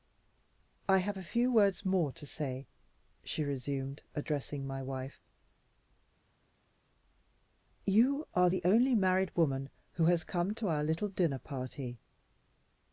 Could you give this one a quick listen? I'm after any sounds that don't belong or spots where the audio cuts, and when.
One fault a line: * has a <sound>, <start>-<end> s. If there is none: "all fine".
all fine